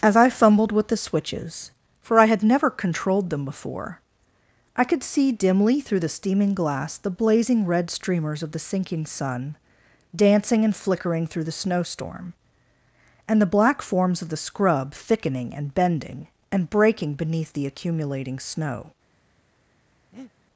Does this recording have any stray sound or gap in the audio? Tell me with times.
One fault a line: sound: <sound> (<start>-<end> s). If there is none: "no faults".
sound: breath (20.1-20.3 s)